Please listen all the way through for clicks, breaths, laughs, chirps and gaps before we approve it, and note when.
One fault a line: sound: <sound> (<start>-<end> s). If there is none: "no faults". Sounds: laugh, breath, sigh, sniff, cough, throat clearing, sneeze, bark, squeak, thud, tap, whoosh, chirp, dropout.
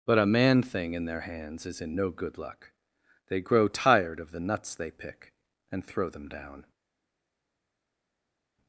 no faults